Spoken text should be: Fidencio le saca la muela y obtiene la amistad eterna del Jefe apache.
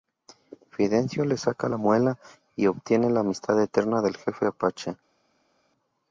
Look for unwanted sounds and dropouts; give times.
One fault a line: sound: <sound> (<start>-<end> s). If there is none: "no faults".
no faults